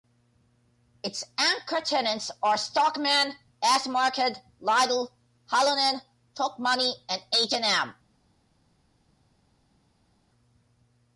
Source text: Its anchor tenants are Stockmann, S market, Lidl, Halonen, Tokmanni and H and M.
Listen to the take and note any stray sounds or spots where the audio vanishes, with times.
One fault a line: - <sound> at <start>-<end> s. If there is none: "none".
none